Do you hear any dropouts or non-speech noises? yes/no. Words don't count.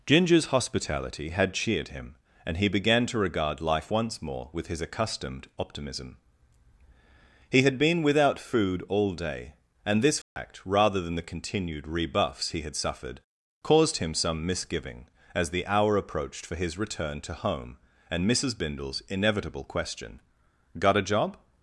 yes